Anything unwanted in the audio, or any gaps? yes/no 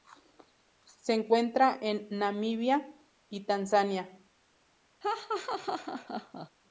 yes